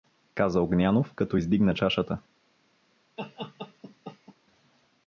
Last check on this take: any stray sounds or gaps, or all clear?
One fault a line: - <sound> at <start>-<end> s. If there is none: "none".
- laugh at 3.2-4.4 s